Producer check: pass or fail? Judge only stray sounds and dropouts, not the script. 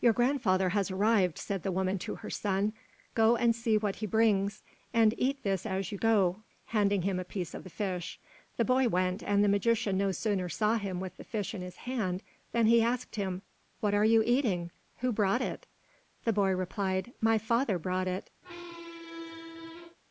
fail